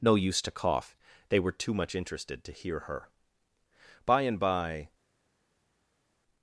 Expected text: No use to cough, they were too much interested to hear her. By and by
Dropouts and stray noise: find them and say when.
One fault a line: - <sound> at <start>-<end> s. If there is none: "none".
none